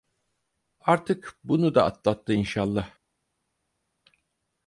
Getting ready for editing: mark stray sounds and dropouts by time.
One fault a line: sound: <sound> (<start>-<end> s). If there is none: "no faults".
no faults